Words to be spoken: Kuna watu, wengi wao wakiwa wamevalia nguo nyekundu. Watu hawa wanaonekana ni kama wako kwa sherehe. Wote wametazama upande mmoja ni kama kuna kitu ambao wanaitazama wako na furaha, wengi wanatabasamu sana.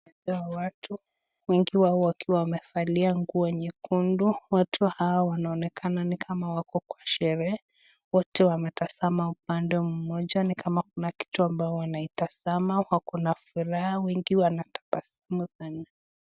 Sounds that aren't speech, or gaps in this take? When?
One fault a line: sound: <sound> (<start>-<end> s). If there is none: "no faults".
no faults